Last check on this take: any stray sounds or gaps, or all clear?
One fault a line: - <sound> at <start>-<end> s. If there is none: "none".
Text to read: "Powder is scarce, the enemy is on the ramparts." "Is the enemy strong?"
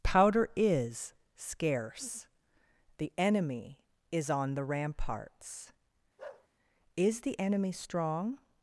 - bark at 6.2-6.5 s